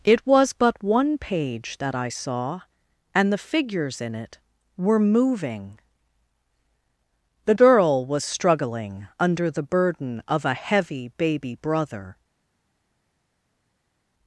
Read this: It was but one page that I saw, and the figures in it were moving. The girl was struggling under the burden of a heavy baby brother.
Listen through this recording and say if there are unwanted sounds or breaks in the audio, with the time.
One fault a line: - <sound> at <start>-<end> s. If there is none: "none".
none